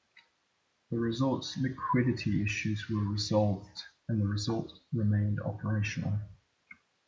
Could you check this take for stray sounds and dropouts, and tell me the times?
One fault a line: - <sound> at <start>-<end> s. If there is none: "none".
none